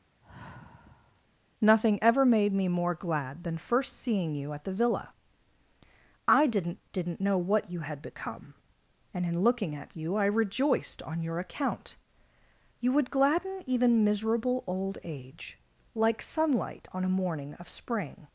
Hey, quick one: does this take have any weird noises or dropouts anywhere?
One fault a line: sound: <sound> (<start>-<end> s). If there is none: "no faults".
sound: sigh (0.2-1.2 s)